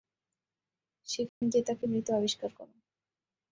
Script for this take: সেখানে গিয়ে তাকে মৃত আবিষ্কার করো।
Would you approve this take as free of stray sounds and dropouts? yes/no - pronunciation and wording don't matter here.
no